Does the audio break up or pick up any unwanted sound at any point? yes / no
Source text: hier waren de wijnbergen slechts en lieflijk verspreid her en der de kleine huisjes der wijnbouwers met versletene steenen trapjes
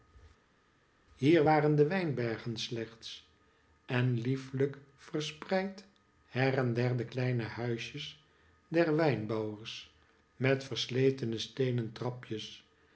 no